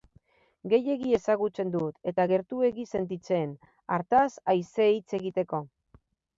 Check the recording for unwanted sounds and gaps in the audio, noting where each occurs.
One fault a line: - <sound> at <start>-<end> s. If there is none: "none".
none